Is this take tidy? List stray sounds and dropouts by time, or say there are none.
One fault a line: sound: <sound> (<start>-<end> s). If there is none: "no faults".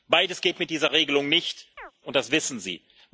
sound: chirp (1.8-1.9 s)